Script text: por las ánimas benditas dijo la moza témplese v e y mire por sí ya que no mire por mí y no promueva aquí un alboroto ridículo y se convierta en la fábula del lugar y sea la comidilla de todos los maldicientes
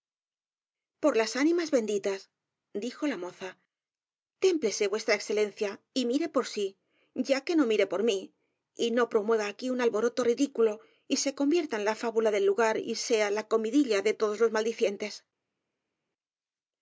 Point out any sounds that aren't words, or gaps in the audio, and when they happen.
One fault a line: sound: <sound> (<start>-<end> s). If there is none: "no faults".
no faults